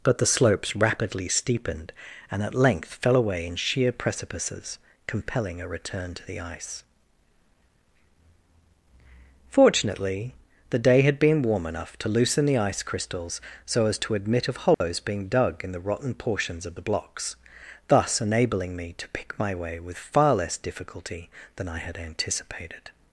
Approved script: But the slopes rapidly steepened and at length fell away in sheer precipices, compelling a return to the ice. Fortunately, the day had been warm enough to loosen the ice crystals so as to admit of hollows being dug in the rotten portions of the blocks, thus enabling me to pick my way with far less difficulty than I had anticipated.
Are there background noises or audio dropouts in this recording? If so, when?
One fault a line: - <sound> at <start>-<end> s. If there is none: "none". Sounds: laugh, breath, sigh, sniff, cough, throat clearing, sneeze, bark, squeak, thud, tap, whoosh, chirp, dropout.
- dropout at 14.7-14.8 s